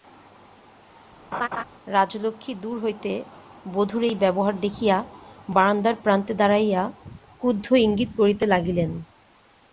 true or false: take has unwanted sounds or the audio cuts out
true